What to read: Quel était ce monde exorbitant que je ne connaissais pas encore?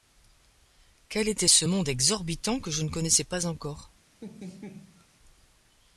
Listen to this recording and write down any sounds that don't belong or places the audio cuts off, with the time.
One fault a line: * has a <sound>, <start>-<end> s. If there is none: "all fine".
* has a laugh, 4.2-5.1 s